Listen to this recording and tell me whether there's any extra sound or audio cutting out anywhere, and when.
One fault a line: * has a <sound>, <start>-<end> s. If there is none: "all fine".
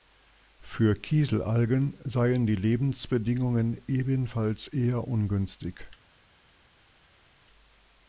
all fine